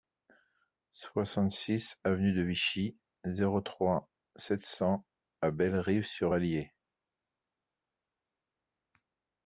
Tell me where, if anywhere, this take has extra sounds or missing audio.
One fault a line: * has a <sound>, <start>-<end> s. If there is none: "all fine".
all fine